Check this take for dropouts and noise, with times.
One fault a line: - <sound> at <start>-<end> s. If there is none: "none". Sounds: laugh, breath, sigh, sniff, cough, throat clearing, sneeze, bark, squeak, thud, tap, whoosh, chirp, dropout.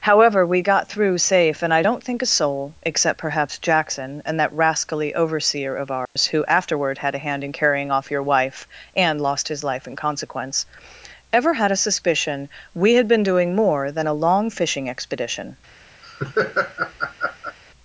- dropout at 6.0-6.2 s
- laugh at 16.0-17.6 s